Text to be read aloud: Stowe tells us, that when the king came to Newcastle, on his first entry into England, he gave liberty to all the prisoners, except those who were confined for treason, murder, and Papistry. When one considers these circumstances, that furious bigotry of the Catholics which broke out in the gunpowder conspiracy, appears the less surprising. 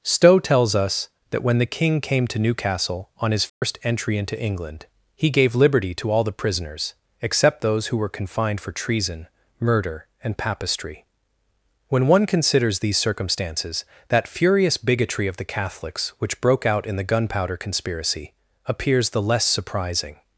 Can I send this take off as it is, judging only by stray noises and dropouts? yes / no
no